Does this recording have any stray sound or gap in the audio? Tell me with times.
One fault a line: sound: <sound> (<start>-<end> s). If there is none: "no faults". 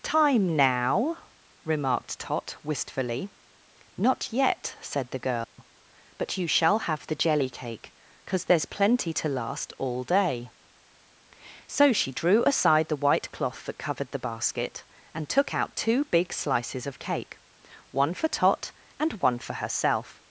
sound: dropout (5.4-5.6 s)